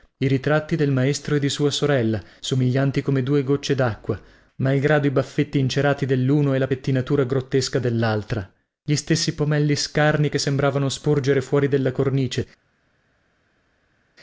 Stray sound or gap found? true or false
false